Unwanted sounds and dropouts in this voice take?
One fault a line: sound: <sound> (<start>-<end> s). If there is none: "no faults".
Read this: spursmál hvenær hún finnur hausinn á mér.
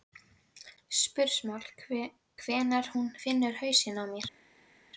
no faults